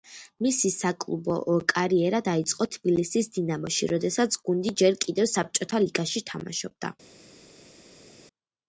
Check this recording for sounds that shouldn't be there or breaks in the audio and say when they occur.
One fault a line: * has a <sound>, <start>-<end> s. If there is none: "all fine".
all fine